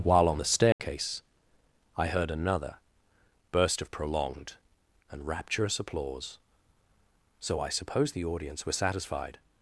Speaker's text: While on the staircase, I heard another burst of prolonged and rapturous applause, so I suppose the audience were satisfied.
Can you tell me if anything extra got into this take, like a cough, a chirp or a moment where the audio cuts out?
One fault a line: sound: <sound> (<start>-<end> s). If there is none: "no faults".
sound: dropout (0.7-0.8 s)